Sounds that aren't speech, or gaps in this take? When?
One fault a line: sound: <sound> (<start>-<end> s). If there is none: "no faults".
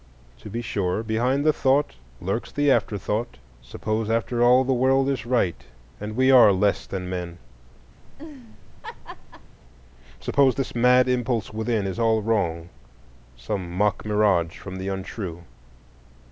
sound: laugh (8.0-9.6 s)